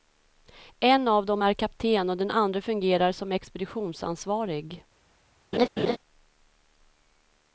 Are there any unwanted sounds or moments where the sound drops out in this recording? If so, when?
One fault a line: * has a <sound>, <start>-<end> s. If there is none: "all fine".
* has a laugh, 5.5-6.0 s